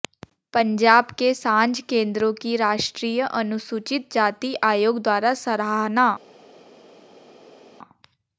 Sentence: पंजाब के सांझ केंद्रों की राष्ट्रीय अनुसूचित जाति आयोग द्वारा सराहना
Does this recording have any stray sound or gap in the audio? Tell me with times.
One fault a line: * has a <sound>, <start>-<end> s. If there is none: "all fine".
all fine